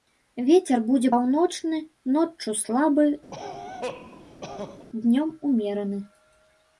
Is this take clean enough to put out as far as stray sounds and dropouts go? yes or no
no